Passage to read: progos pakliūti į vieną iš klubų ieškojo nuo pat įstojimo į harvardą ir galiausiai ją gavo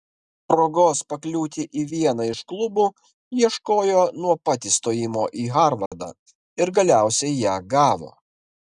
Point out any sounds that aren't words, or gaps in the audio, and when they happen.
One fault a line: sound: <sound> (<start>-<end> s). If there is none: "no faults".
sound: dropout (5.9-5.9 s)